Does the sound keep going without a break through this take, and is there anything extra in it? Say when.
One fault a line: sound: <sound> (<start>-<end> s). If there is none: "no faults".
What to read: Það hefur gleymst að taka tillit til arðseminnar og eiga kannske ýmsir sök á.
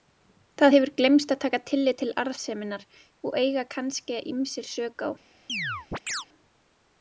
sound: chirp (5.5-6.3 s)